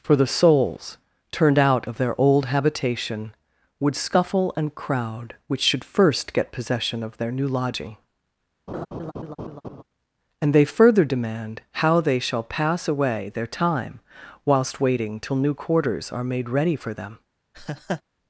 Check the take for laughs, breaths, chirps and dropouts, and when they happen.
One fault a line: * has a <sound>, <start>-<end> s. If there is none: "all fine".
* has a laugh, 8.7-9.8 s
* has a laugh, 17.5-18.0 s